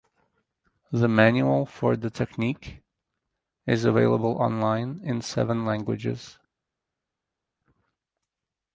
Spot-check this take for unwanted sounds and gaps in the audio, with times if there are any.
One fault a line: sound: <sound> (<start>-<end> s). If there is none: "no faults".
no faults